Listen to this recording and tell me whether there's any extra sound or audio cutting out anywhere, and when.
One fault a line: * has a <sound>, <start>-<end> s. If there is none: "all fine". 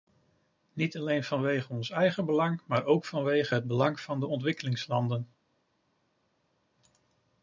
all fine